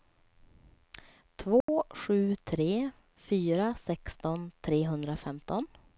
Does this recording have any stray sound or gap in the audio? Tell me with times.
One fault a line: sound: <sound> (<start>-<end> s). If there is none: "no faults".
sound: dropout (1.6-1.7 s)